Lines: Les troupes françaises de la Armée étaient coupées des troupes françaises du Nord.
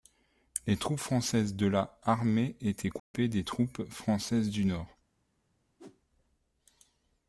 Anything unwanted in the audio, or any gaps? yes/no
yes